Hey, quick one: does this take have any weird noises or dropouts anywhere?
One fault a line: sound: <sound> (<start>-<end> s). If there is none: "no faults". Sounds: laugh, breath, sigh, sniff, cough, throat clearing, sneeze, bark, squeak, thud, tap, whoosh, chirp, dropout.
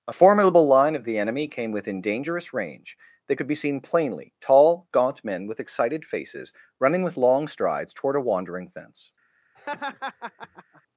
sound: laugh (9.6-10.8 s)